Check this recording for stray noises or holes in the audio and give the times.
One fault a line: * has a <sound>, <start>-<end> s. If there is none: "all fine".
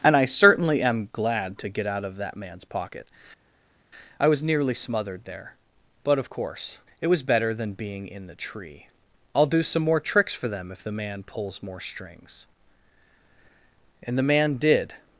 all fine